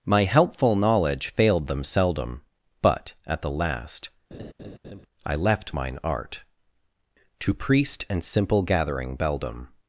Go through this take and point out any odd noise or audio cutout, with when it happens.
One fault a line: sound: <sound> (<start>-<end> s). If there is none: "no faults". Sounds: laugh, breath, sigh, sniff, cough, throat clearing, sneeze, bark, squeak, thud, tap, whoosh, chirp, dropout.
sound: laugh (4.3-5.1 s)